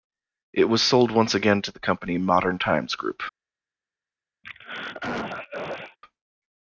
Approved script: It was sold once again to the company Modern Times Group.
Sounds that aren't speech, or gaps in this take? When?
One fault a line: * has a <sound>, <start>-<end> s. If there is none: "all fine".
* has a throat clearing, 4.4-6.0 s